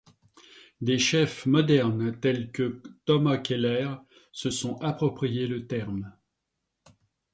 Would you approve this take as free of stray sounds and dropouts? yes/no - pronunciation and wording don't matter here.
yes